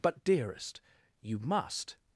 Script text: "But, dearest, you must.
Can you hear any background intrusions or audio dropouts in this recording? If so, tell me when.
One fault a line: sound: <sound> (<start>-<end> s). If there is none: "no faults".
no faults